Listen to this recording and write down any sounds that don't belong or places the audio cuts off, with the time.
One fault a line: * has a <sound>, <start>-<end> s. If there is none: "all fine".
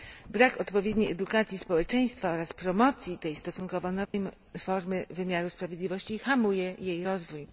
* has a dropout, 4.1-4.1 s